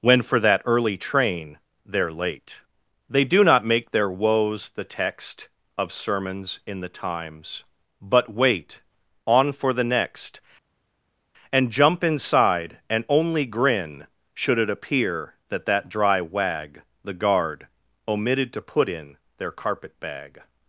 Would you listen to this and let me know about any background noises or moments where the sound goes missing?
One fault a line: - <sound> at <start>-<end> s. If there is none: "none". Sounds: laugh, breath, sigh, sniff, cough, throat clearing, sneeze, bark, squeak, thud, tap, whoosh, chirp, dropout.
none